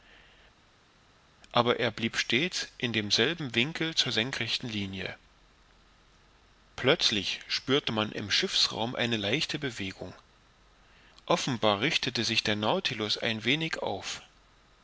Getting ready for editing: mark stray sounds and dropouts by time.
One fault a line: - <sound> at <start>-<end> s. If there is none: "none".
none